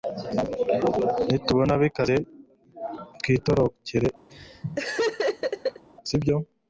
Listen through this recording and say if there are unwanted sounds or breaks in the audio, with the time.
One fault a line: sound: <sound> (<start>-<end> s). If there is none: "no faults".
sound: laugh (4.3-5.8 s)